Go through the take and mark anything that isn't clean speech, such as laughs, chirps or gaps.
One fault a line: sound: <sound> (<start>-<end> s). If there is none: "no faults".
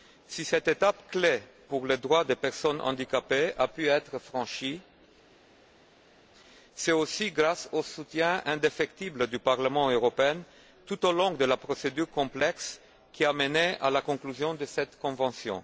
no faults